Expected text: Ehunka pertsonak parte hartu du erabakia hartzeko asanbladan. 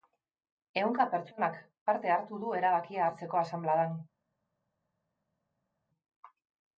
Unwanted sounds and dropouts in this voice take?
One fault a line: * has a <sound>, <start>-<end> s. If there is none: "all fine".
all fine